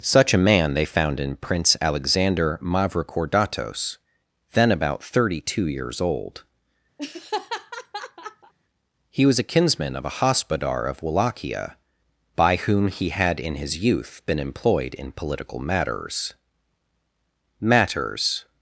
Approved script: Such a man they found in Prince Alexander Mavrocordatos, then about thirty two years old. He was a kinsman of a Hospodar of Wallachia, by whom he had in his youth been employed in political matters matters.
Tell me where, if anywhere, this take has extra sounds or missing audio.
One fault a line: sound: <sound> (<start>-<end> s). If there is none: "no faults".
sound: laugh (7.0-8.5 s)